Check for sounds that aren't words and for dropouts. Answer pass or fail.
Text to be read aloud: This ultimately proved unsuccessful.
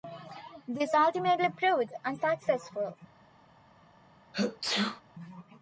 fail